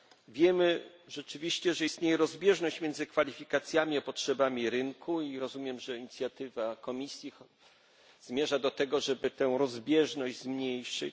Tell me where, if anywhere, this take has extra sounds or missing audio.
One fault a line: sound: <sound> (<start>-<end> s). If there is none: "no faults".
no faults